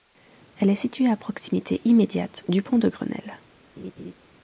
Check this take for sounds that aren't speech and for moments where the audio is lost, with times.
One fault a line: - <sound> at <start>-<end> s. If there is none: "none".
- laugh at 3.8-4.1 s